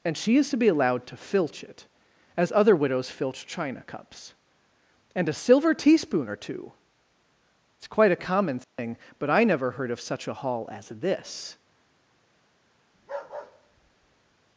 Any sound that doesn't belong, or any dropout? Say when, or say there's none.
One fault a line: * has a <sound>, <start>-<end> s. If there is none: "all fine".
* has a dropout, 8.6-8.8 s
* has a bark, 12.9-14.4 s